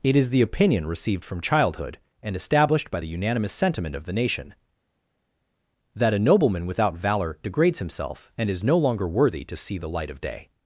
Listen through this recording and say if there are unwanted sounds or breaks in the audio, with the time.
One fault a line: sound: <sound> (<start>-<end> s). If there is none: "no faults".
no faults